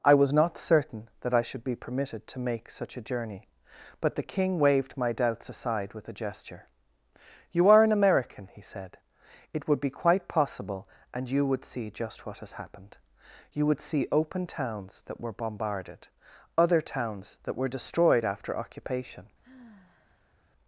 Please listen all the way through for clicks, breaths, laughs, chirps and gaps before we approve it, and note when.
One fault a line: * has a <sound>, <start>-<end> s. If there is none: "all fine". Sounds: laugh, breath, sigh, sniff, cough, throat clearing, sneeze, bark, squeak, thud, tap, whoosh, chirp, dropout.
* has a sigh, 19.4-20.4 s